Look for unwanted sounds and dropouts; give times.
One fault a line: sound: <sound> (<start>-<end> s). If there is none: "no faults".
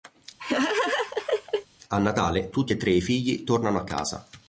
sound: laugh (0.4-1.7 s)